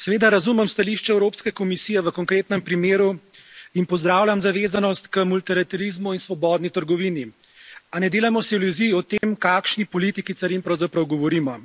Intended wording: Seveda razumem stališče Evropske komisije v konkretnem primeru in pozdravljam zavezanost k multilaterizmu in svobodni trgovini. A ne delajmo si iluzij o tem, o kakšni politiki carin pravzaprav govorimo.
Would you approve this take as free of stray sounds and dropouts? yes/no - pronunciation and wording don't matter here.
no